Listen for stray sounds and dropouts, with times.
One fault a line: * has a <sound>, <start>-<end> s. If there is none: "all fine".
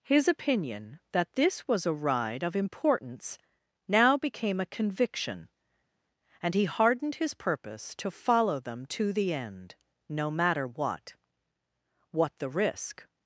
all fine